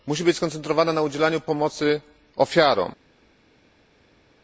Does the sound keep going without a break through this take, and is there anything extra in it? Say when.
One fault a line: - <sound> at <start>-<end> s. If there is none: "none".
none